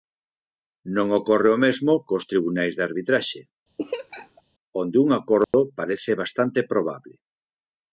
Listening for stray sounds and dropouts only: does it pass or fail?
fail